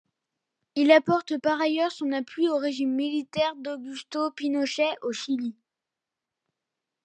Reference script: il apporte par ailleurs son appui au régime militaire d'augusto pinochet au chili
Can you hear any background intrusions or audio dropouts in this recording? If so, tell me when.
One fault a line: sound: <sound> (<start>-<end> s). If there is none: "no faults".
no faults